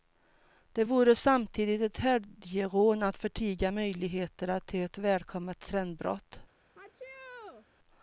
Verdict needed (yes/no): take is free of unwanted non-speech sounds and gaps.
no